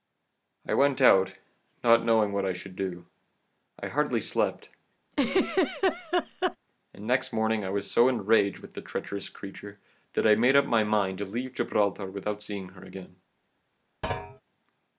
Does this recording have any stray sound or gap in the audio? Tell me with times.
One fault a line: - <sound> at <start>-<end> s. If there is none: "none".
- laugh at 5.1-6.6 s
- thud at 14.0-14.4 s